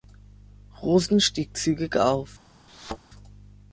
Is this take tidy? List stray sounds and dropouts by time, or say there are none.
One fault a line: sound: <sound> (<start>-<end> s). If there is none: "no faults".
sound: thud (2.7-3.0 s)